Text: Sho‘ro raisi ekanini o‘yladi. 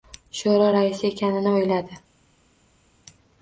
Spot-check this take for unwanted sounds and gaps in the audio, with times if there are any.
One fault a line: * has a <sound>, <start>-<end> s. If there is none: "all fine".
all fine